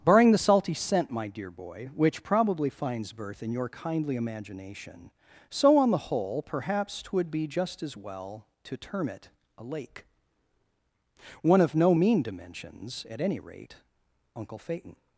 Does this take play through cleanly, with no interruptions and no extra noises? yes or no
yes